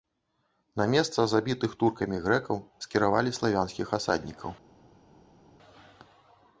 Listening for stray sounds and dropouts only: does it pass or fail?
pass